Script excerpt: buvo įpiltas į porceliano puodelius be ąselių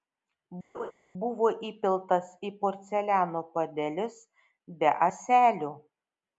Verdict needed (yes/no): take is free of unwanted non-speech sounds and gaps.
no